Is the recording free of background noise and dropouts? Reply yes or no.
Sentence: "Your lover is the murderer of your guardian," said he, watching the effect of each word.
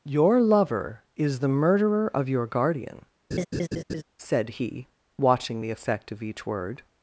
no